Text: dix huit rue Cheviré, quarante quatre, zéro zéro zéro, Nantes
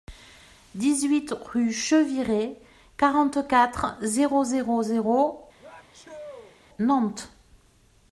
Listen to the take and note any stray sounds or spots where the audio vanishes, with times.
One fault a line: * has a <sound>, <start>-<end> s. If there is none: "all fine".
* has a sneeze, 5.6-6.6 s